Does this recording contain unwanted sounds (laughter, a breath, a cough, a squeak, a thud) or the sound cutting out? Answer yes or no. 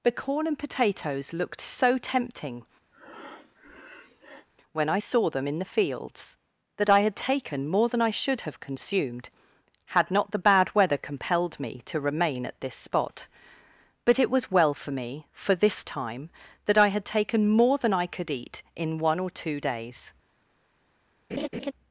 yes